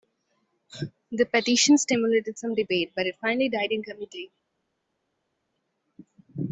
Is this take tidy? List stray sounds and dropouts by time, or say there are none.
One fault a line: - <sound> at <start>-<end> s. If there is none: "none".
none